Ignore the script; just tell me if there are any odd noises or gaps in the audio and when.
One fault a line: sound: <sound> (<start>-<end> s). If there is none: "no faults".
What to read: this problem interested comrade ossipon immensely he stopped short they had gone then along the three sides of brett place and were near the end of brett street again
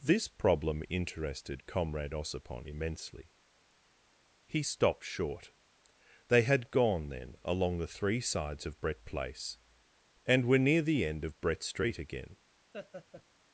sound: laugh (12.7-13.2 s)